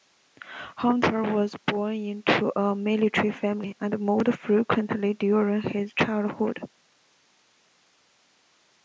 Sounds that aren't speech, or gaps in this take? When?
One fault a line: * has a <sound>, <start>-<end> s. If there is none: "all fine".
all fine